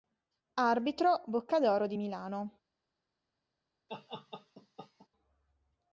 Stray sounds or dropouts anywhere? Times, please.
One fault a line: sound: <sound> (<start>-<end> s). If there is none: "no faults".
sound: laugh (3.9-5.1 s)